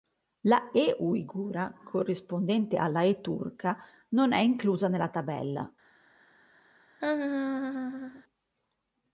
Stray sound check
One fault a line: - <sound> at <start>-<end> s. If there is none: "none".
- laugh at 7.0-8.2 s